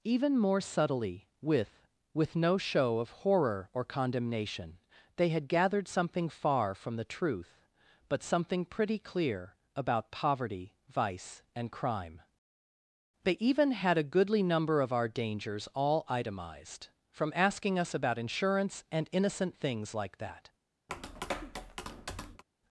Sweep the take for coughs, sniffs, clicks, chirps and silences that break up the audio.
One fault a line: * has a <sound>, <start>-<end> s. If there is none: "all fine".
* has a tap, 20.9-22.4 s